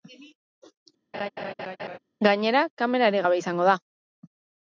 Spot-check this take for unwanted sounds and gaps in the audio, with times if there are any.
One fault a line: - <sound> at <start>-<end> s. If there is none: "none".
- laugh at 1.1-2.0 s